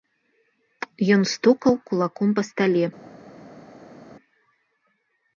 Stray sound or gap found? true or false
false